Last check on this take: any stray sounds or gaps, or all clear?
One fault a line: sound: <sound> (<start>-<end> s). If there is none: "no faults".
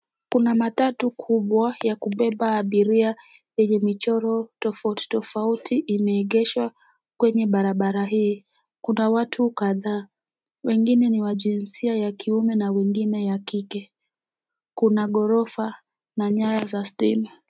no faults